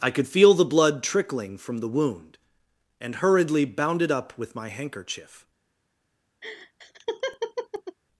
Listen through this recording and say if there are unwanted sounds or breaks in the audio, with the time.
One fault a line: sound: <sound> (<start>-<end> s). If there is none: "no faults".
sound: laugh (6.4-8.0 s)